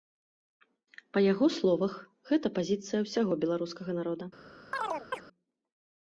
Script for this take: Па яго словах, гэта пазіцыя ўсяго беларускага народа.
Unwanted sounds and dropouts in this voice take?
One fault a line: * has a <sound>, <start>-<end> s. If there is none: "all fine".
* has a chirp, 4.7-5.2 s